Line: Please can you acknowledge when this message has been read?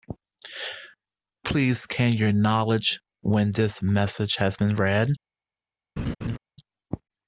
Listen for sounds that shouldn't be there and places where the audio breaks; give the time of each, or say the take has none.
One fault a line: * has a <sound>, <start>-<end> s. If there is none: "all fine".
* has a laugh, 6.0-6.4 s